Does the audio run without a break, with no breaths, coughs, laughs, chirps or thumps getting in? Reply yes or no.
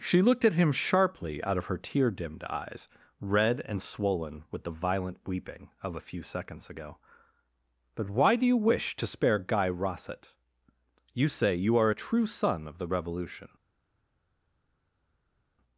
yes